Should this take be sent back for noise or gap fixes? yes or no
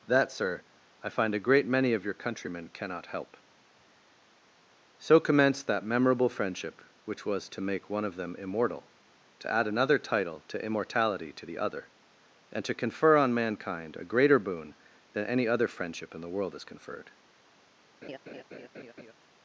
yes